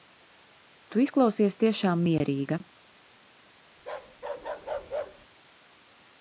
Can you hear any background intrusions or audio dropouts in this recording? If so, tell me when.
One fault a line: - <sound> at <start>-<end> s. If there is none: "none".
- bark at 3.8-5.3 s